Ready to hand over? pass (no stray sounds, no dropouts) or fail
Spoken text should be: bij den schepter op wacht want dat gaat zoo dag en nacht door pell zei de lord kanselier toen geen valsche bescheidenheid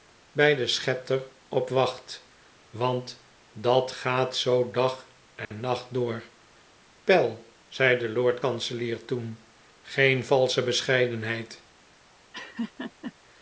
fail